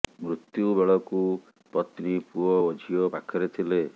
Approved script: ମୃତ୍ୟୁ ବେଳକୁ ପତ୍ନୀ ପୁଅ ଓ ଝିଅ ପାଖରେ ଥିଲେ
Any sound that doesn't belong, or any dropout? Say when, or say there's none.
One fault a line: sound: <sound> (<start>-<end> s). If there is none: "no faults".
no faults